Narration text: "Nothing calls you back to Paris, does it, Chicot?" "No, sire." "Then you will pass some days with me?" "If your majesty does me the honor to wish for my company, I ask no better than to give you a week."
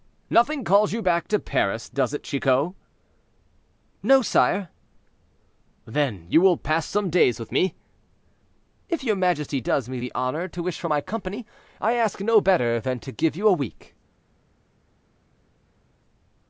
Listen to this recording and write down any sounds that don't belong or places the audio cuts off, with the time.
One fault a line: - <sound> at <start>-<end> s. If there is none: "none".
none